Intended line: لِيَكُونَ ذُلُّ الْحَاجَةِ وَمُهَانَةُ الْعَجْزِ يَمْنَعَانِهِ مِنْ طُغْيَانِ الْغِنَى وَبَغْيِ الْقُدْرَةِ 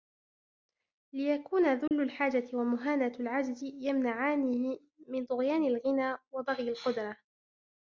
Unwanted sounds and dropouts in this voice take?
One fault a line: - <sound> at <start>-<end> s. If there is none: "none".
- dropout at 1.9-1.9 s